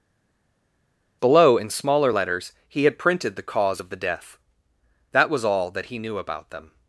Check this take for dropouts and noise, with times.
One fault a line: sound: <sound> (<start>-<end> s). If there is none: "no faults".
no faults